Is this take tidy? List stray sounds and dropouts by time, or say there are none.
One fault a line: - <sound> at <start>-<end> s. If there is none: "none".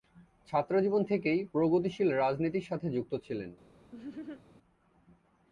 - laugh at 3.9-4.4 s